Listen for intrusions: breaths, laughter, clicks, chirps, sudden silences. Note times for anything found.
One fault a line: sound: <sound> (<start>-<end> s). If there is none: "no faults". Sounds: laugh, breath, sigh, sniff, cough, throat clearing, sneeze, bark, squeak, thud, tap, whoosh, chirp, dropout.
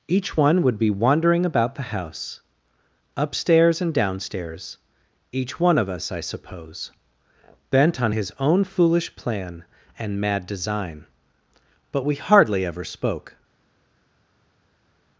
no faults